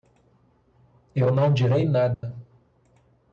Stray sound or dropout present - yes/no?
yes